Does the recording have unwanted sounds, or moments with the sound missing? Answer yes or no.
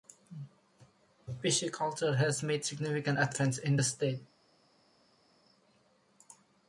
no